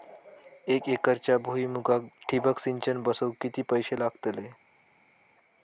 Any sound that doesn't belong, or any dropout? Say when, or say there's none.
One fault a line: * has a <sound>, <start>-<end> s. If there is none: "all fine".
all fine